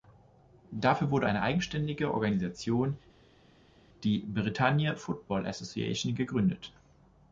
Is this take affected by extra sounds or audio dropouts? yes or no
no